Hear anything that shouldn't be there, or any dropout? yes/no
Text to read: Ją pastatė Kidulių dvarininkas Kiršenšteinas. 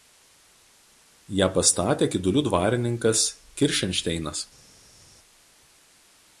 no